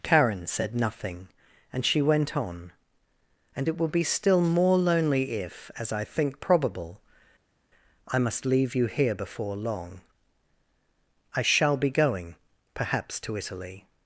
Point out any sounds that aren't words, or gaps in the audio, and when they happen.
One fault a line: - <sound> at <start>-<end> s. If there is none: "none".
none